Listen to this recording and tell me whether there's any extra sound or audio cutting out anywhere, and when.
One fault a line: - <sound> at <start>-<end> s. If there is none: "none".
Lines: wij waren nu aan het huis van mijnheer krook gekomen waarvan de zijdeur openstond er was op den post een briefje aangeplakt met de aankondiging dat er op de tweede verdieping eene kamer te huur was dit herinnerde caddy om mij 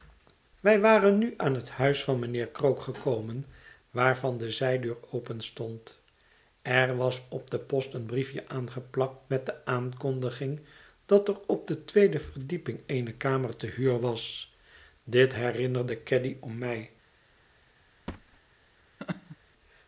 - thud at 18.1-18.4 s
- laugh at 19.0-19.4 s